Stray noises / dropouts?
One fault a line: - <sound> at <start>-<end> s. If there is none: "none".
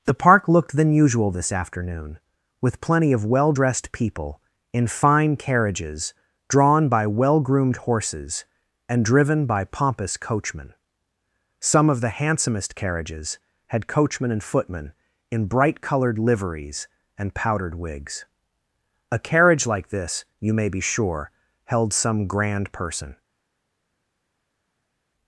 none